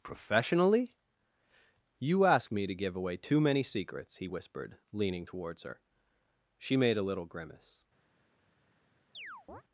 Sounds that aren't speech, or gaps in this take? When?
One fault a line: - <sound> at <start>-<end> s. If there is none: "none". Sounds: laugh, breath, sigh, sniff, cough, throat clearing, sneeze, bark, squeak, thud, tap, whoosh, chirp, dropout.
- chirp at 9.1-9.6 s